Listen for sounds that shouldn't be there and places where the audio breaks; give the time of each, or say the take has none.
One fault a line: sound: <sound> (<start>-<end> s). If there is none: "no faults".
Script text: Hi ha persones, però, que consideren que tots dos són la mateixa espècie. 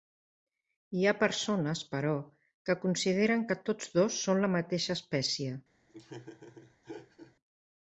sound: laugh (5.9-7.3 s)